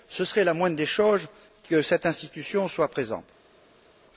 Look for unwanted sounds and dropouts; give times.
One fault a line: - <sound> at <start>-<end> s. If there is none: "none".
none